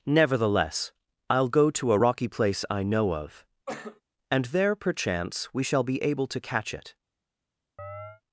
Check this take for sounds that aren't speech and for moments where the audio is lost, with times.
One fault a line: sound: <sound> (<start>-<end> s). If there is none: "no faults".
sound: cough (3.7-4.0 s)
sound: chirp (7.8-8.2 s)